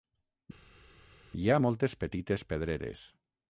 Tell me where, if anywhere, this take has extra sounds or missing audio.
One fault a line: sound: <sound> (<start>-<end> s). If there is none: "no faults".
no faults